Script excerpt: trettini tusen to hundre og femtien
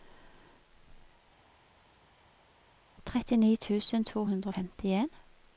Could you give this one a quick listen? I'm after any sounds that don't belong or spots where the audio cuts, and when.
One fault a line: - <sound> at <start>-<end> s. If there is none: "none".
none